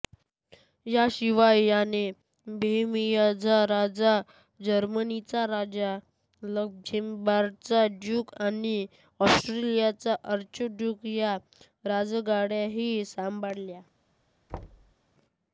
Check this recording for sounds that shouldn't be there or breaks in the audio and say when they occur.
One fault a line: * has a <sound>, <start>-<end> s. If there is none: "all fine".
* has a thud, 14.5-14.9 s